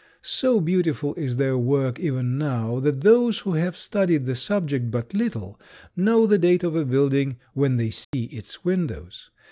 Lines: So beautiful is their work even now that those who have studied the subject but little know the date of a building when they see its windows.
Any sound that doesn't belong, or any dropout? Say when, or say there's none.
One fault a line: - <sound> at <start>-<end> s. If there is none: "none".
- dropout at 8.0-8.1 s